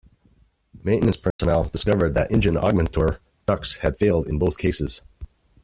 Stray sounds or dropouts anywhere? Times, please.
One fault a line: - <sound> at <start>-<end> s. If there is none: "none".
- dropout at 1.3-1.4 s